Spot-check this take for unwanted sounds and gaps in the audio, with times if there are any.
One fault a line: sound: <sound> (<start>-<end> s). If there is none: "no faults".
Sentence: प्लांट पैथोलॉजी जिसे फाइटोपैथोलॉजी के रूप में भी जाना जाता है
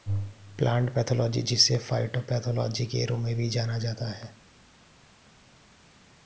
no faults